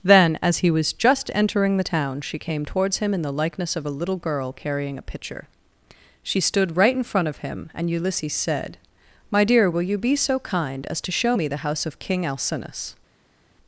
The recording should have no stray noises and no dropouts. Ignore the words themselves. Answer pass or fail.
pass